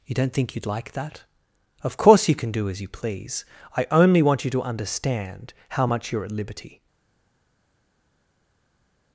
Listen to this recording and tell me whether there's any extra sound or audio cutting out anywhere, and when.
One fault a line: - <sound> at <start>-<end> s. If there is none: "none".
none